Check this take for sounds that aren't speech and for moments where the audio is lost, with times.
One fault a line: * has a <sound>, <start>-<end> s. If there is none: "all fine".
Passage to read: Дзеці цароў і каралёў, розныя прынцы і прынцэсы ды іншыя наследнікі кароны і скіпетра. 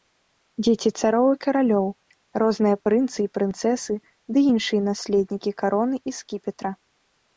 all fine